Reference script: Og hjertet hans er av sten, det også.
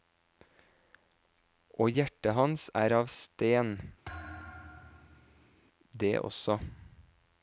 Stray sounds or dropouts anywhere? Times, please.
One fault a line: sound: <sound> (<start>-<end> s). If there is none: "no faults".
sound: thud (4.0-5.6 s)